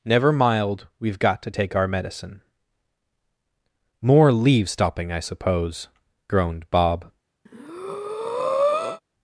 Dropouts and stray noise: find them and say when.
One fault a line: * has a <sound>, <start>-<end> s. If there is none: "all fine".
* has a breath, 7.5-9.0 s